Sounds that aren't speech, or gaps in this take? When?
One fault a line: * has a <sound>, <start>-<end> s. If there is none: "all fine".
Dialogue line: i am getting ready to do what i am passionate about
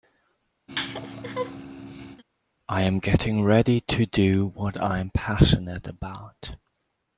* has a laugh, 0.7-2.2 s